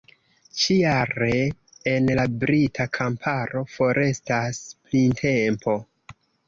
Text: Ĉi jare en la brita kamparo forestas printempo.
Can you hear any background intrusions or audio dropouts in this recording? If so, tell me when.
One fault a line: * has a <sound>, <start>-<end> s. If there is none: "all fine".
all fine